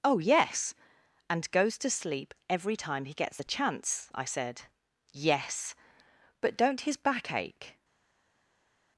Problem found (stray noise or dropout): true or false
false